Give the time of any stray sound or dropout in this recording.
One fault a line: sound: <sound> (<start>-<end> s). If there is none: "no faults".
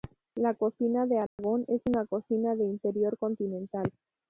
sound: dropout (1.3-1.4 s)